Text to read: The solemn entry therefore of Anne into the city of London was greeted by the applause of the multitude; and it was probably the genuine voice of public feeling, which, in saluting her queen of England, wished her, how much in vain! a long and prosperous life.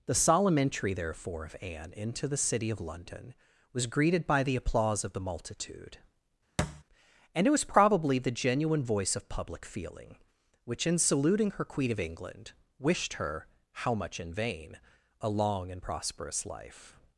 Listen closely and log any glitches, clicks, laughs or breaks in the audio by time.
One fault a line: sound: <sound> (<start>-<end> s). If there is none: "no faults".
sound: thud (6.6-6.8 s)